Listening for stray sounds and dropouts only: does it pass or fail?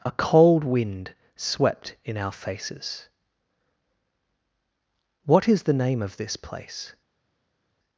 pass